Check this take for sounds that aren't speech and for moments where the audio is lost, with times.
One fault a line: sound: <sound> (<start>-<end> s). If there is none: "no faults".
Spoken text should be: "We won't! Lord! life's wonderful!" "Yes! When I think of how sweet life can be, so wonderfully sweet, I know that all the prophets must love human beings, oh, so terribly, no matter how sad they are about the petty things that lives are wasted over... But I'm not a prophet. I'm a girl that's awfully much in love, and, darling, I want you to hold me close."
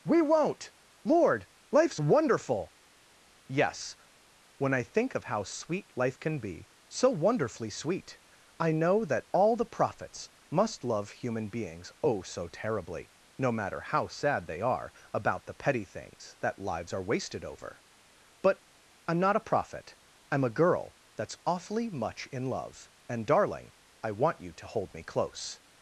no faults